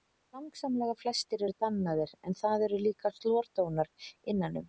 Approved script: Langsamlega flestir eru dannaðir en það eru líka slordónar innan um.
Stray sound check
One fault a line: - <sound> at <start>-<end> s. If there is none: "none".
none